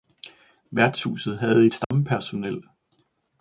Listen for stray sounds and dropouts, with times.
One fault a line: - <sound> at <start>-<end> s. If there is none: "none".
- dropout at 1.8-1.9 s